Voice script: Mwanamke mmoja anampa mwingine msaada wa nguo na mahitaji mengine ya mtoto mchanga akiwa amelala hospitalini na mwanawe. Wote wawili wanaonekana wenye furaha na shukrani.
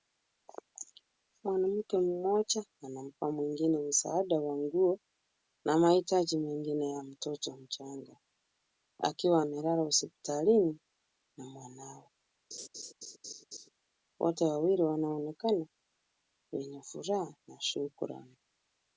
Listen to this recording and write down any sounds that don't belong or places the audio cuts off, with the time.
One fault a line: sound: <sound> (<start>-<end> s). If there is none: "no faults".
sound: laugh (12.5-13.7 s)